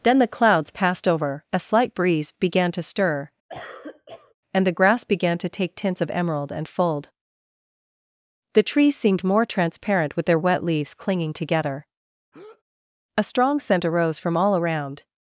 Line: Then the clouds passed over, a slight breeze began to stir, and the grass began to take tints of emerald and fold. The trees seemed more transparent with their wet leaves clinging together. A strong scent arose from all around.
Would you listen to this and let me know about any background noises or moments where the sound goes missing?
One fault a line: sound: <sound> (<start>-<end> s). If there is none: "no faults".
sound: cough (3.5-4.3 s)
sound: breath (12.3-12.6 s)